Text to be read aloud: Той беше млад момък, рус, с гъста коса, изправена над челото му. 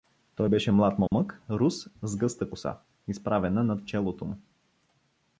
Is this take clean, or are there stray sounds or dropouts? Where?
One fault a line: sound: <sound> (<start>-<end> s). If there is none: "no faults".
sound: dropout (1.1-1.1 s)